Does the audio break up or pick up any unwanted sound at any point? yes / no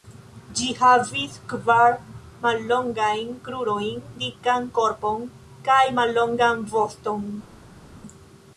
no